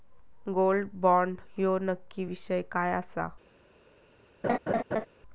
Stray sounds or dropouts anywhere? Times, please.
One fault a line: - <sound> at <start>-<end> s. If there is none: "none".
- laugh at 4.4-5.1 s